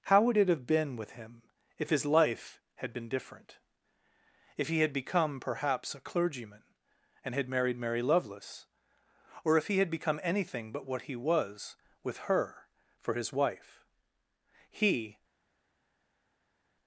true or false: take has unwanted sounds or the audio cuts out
false